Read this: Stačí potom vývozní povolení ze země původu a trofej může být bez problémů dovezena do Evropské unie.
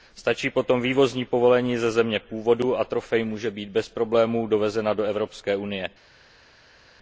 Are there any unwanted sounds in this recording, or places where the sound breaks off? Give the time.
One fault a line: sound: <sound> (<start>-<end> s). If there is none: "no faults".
no faults